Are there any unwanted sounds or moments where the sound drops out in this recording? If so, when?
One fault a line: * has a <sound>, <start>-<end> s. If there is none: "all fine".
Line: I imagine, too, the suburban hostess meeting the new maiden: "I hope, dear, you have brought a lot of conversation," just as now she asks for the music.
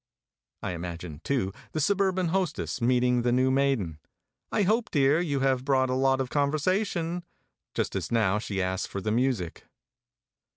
all fine